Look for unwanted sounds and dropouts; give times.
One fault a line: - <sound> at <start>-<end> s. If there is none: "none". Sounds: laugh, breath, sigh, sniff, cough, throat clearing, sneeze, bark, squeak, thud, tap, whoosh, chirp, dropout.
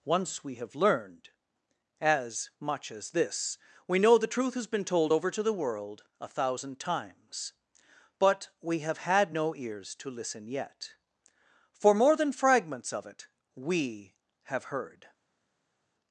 none